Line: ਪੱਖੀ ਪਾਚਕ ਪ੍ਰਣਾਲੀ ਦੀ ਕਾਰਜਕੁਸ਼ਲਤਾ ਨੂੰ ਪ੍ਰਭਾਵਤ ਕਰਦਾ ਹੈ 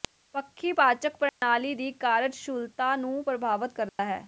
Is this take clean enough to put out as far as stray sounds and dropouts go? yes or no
no